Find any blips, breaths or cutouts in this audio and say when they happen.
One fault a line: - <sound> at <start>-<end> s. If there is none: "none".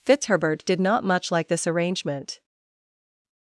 none